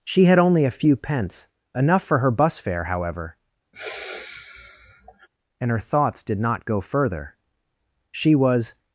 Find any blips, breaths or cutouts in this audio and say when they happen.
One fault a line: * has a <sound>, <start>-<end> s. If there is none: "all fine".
* has a sigh, 3.7-5.3 s